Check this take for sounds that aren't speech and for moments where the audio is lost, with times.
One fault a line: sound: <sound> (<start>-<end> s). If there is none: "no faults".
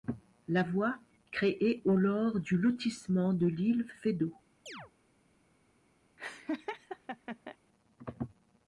sound: chirp (4.7-4.9 s)
sound: laugh (6.2-7.6 s)